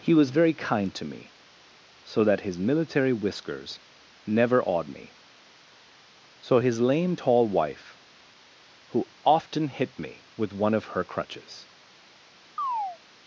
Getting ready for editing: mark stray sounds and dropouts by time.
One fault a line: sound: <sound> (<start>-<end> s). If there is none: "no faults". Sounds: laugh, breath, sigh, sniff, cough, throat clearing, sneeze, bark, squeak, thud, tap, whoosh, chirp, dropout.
sound: chirp (12.6-13.0 s)